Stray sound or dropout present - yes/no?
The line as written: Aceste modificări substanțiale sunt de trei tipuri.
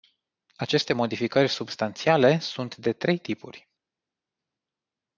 no